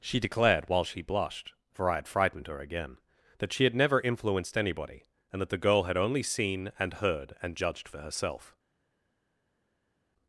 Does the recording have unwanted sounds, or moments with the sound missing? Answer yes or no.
no